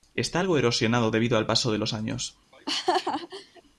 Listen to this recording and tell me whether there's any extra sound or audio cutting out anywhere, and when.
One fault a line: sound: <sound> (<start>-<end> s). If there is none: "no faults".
sound: laugh (2.5-3.6 s)